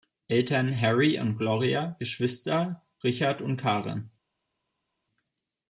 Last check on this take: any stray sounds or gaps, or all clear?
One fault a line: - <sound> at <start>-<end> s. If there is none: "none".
none